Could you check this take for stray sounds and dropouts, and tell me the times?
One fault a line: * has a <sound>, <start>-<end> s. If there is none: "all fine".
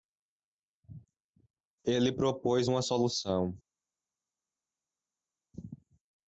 all fine